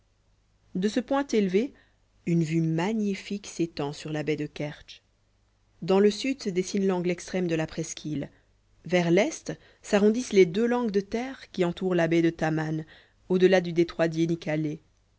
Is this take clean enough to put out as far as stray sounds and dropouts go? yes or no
yes